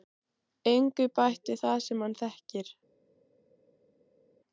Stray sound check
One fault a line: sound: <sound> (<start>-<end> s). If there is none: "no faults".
no faults